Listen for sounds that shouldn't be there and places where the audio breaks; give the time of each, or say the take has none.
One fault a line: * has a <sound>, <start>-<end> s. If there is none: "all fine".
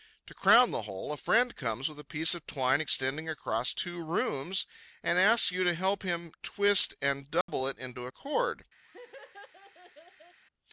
* has a dropout, 7.4-7.5 s
* has a laugh, 8.8-10.4 s